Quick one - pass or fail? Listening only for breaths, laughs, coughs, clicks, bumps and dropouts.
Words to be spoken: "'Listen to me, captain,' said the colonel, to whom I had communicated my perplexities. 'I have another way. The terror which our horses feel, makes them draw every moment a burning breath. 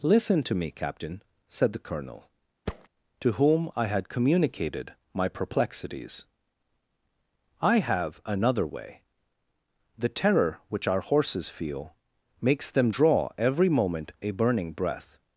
fail